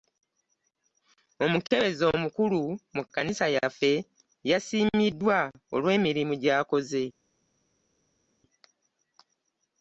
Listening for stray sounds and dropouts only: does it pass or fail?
pass